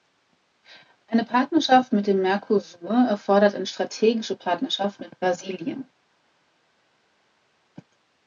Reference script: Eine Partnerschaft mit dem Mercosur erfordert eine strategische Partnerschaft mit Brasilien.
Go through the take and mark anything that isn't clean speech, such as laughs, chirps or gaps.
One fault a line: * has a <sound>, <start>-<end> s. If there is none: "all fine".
all fine